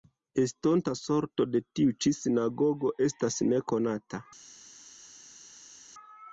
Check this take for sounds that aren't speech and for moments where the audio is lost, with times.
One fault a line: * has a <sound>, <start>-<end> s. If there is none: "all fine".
all fine